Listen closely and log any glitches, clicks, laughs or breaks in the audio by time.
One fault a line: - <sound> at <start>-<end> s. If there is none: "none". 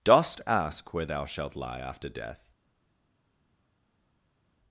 none